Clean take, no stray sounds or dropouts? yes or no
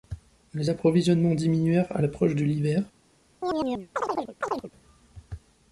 no